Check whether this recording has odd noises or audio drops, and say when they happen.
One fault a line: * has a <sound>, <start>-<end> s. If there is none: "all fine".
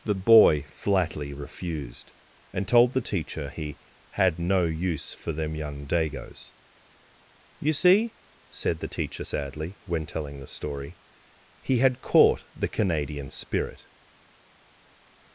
all fine